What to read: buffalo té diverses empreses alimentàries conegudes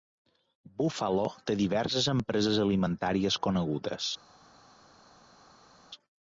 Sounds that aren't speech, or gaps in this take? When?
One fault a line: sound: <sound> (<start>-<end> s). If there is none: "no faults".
no faults